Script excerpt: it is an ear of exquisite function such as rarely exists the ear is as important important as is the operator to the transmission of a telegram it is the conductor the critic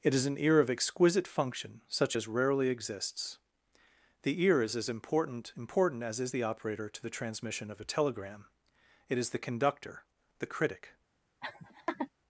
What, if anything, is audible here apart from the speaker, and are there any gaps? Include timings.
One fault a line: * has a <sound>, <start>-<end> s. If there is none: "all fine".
* has a laugh, 11.4-12.1 s